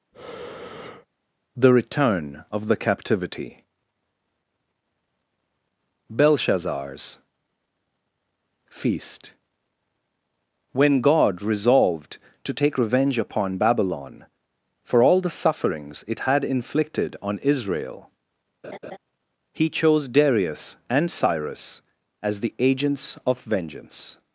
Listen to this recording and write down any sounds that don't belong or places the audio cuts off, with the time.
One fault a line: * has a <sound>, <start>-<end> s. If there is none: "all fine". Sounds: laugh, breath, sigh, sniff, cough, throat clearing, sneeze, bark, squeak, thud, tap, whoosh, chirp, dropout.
* has a breath, 0.1-1.1 s
* has a laugh, 18.6-19.0 s